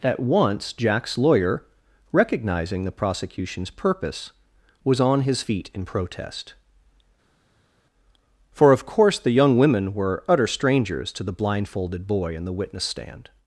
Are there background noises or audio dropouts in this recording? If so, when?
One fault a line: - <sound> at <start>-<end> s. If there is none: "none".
none